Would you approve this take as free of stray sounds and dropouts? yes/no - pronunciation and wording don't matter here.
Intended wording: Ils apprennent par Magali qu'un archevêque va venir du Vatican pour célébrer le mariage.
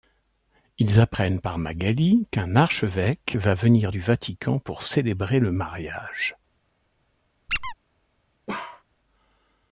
no